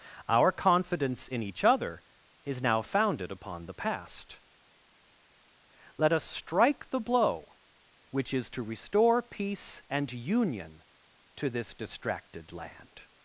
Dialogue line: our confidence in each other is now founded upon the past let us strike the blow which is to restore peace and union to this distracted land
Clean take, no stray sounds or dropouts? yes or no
yes